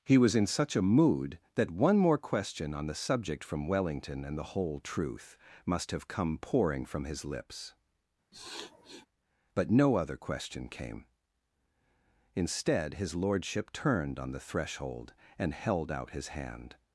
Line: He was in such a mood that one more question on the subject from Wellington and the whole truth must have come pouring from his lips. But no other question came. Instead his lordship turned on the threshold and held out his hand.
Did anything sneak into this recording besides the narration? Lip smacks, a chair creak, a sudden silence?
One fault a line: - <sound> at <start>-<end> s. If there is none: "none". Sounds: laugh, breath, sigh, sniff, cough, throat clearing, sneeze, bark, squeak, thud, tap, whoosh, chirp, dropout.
- sniff at 8.3-9.1 s